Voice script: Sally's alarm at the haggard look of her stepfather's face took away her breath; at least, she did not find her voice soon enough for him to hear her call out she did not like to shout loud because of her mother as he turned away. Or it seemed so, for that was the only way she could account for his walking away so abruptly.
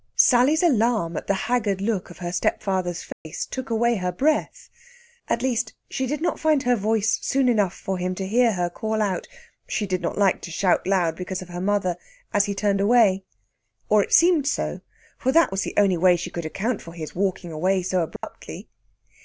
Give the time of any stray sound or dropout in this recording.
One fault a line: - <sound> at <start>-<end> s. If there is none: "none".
- dropout at 3.1-3.3 s
- dropout at 18.2-18.2 s